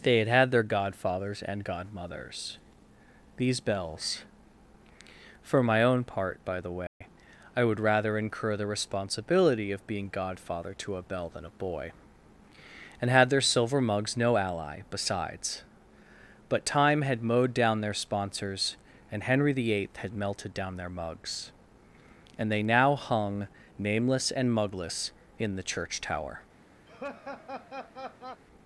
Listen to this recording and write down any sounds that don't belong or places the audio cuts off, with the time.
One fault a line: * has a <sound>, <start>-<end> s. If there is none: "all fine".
* has a dropout, 6.9-7.0 s
* has a laugh, 26.9-28.4 s